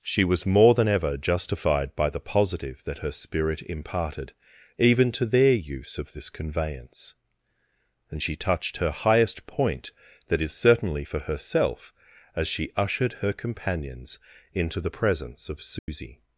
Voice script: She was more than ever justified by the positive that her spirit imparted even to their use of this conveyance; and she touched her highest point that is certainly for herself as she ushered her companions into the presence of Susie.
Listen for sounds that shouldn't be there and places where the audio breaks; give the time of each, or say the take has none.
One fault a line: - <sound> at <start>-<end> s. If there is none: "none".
- dropout at 15.8-15.9 s